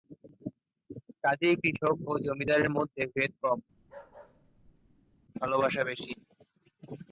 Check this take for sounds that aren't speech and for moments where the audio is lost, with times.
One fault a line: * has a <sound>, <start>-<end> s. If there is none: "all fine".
* has a bark, 3.8-5.2 s